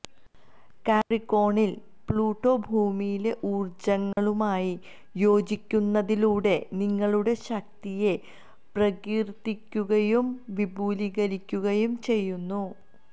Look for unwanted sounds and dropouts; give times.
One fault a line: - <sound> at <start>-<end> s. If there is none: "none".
- dropout at 4.1-4.2 s